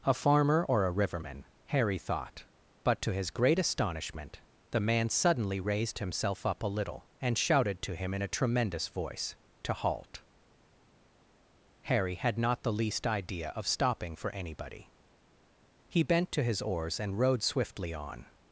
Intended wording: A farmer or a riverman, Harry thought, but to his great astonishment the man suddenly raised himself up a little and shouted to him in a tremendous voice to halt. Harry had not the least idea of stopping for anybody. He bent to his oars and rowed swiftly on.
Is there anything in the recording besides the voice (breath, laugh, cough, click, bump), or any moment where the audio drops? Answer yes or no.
no